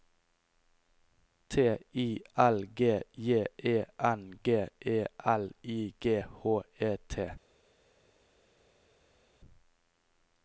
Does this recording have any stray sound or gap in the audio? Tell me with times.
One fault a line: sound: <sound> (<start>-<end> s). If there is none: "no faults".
no faults